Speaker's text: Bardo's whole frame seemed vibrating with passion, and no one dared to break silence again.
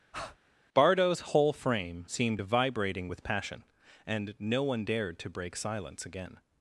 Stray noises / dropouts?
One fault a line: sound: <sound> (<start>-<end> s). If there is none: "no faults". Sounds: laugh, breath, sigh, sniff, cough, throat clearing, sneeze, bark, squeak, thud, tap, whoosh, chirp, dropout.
sound: breath (0.1-0.4 s)